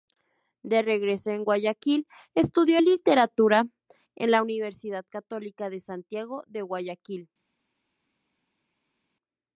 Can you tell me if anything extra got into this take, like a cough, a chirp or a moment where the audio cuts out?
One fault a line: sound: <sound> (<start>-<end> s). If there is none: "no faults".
no faults